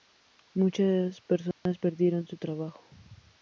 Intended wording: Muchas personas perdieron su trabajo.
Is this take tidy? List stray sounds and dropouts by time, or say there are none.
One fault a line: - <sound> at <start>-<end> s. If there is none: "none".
- dropout at 1.5-1.7 s